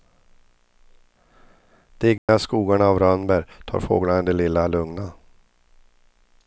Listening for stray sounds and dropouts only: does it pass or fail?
fail